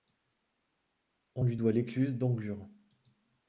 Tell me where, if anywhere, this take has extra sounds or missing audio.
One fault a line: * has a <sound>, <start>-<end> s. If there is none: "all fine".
all fine